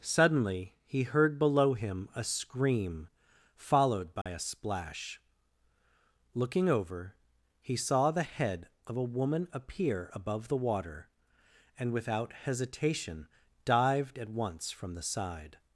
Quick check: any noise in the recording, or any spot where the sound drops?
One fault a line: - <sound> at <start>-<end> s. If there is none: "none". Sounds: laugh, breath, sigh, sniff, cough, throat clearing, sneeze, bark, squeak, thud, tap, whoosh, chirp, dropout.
- dropout at 4.2-4.3 s